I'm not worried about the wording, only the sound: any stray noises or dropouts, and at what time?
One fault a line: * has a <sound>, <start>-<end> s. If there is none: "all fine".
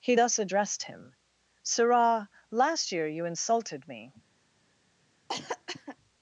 * has a cough, 5.3-6.0 s